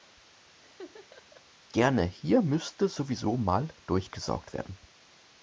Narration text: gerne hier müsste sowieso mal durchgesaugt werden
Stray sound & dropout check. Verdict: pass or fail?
fail